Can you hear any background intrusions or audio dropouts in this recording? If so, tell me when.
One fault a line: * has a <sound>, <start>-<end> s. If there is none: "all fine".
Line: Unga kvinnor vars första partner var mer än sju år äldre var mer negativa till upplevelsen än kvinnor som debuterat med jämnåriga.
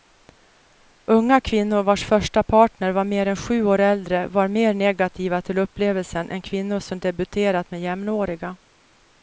all fine